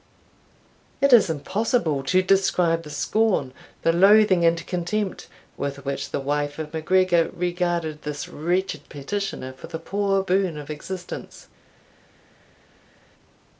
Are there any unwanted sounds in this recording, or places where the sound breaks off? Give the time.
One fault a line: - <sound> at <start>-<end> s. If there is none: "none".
none